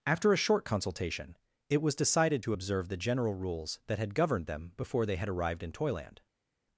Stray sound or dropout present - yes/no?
no